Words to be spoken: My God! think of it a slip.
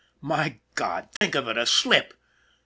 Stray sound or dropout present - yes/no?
yes